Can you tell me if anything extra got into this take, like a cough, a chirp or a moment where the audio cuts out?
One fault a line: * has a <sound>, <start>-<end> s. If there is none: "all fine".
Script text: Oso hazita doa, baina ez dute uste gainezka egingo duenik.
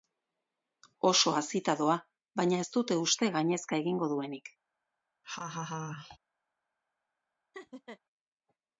* has a laugh, 5.2-6.2 s
* has a laugh, 7.5-8.0 s